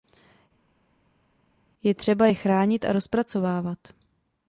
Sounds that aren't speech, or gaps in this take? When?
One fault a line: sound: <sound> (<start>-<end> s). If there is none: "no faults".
no faults